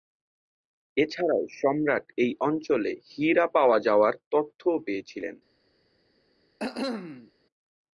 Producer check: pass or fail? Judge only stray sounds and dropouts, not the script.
fail